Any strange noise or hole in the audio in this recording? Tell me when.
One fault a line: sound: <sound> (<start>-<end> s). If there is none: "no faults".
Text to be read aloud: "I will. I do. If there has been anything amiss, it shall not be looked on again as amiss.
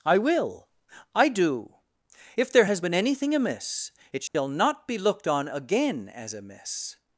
sound: dropout (4.3-4.3 s)